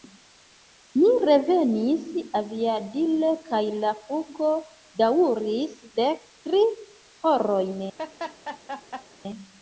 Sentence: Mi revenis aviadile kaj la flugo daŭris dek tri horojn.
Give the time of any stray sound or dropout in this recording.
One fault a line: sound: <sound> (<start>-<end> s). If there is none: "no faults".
sound: laugh (8.0-9.1 s)